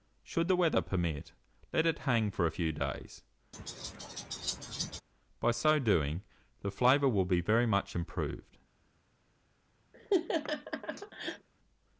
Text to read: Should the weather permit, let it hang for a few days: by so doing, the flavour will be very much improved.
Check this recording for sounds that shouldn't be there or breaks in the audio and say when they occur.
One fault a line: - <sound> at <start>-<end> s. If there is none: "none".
- laugh at 3.5-5.0 s
- laugh at 9.9-11.5 s